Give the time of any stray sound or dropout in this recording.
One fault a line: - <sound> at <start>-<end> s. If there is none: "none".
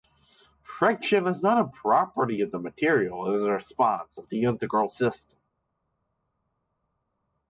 none